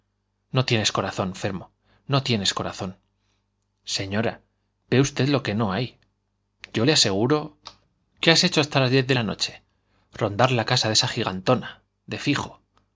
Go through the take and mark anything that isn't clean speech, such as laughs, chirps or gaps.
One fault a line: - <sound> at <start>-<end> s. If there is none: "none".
none